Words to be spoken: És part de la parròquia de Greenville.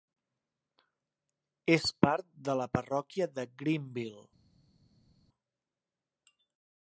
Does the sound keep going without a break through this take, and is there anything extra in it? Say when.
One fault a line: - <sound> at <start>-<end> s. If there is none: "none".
none